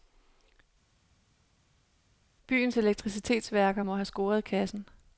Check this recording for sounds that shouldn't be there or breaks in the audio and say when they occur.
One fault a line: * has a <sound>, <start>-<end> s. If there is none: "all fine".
all fine